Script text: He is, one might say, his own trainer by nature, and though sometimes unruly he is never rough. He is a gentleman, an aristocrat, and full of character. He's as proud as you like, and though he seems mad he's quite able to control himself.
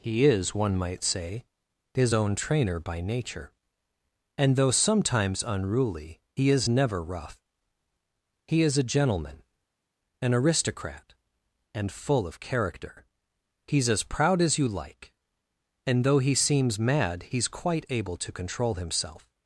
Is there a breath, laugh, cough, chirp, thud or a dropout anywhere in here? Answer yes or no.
no